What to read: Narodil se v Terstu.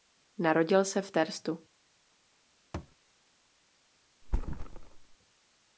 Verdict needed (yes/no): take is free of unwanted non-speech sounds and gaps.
no